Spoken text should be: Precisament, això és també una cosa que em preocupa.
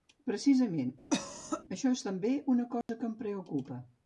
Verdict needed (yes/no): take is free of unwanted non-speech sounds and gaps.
no